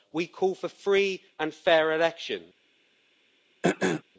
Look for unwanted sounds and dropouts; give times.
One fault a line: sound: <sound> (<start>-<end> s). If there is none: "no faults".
sound: throat clearing (3.6-4.0 s)